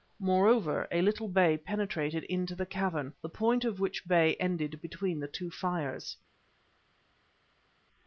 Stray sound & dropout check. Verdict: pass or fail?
pass